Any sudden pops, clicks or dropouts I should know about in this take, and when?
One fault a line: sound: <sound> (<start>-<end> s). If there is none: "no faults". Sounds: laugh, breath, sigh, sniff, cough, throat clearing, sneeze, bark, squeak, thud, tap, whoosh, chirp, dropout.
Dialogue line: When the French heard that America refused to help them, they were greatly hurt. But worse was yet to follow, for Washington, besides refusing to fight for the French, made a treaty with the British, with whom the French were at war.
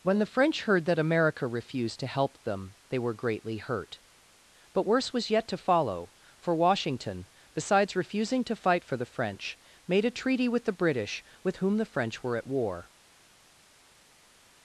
no faults